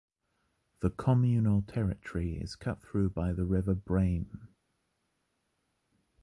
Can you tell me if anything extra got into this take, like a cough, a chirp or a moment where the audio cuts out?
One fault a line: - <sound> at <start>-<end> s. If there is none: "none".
none